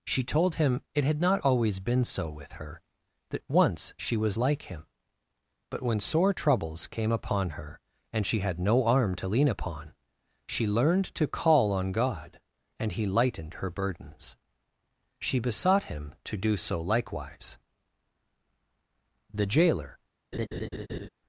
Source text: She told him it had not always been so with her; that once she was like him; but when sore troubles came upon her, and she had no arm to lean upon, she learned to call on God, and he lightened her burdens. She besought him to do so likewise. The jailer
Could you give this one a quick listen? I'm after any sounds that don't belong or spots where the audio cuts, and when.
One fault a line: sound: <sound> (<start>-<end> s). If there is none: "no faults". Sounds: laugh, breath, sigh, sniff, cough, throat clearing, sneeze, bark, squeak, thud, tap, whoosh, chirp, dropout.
sound: laugh (20.3-21.1 s)